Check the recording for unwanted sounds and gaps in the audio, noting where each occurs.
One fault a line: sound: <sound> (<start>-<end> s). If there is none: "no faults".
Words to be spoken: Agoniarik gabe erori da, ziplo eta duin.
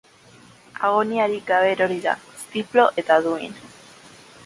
no faults